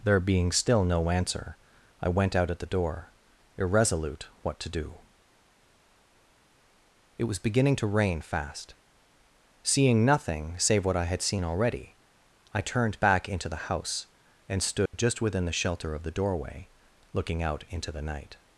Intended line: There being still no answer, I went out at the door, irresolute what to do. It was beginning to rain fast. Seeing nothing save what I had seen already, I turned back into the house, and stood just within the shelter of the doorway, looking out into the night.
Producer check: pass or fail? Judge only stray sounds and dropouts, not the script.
fail